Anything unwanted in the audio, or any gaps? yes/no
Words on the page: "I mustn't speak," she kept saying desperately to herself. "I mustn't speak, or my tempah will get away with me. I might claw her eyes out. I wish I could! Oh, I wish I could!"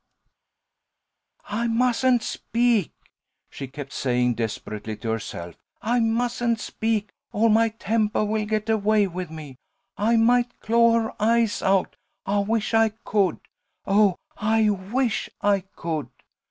no